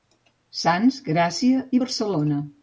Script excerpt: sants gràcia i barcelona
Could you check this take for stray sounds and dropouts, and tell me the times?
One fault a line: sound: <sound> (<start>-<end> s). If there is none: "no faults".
no faults